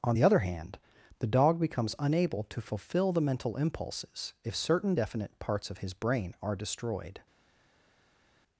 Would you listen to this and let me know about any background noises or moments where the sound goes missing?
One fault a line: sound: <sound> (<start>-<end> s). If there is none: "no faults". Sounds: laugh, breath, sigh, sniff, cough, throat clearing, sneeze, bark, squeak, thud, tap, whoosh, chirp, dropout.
no faults